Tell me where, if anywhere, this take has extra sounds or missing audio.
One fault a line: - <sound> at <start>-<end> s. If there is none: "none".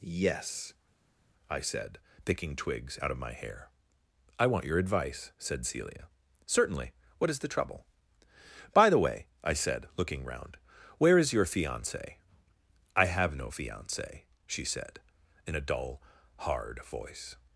none